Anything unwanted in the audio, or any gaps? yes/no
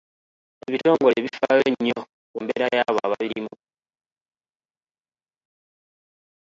no